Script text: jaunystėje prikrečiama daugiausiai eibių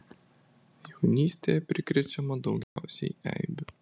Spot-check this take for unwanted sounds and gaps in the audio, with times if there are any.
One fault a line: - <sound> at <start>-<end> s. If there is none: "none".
- dropout at 2.6-2.8 s